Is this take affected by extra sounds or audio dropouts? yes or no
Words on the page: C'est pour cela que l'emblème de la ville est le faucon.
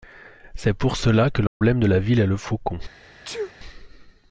yes